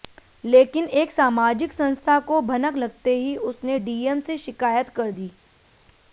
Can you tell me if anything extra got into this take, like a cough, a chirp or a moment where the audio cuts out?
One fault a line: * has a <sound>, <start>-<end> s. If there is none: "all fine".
all fine